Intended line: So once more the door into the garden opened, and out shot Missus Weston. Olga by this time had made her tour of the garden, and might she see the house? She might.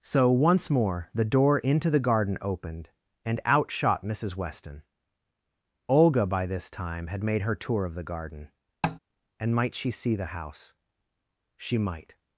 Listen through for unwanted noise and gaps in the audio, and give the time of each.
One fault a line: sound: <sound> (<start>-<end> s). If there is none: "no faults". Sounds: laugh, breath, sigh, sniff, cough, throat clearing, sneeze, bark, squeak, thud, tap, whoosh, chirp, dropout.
sound: tap (8.8-9.0 s)